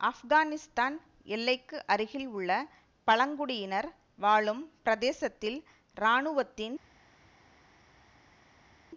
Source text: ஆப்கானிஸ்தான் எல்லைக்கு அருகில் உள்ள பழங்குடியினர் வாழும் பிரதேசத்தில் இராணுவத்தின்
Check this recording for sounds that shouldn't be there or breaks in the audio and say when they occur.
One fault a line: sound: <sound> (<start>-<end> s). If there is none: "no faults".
no faults